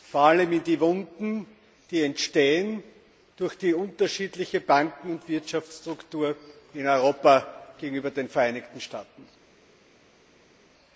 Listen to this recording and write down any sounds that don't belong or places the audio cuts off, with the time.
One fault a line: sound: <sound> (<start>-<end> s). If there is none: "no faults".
no faults